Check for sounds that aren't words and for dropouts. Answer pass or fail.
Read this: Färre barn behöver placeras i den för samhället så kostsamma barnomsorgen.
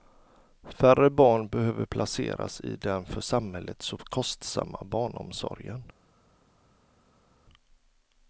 pass